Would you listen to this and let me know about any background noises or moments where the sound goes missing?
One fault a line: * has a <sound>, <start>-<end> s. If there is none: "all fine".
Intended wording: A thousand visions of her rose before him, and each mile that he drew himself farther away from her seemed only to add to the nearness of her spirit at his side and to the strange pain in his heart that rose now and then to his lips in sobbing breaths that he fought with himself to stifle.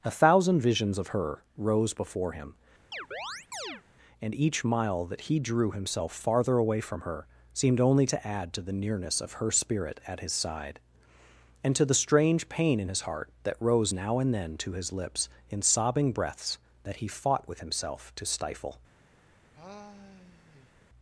* has a chirp, 2.9-3.8 s
* has a sigh, 19.5-20.7 s